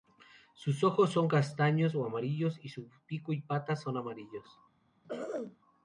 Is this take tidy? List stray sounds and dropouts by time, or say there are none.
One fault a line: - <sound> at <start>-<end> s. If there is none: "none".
- throat clearing at 5.0-5.6 s